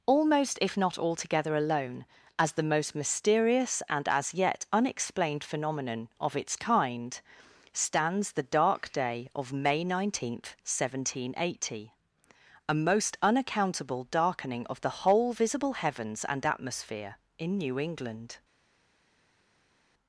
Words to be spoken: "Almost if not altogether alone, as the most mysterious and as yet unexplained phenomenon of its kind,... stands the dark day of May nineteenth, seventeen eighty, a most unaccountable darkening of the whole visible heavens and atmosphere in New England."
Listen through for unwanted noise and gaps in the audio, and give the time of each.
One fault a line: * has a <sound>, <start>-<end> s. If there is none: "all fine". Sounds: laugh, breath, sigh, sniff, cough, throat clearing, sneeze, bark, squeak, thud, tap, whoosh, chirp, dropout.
all fine